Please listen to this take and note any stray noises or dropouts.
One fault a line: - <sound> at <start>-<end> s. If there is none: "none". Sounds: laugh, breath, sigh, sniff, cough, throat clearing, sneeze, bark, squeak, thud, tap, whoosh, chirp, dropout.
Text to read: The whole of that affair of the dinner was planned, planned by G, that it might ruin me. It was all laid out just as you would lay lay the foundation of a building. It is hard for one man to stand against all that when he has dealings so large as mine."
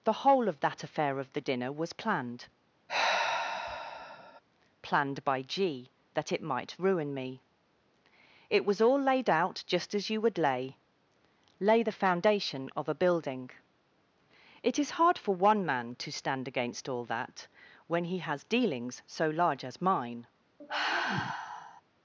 - sigh at 2.9-4.4 s
- sigh at 20.6-21.8 s